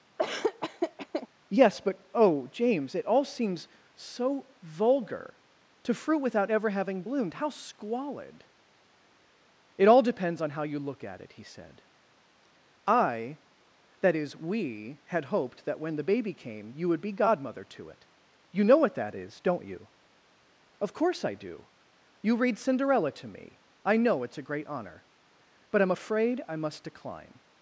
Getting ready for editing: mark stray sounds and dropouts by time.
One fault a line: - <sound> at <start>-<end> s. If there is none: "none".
- laugh at 0.2-1.3 s